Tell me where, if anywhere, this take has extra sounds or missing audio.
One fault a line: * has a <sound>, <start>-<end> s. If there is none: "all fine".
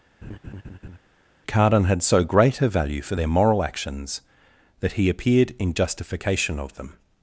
* has a laugh, 0.2-1.0 s